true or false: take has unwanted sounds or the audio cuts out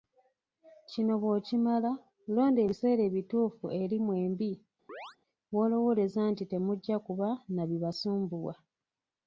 true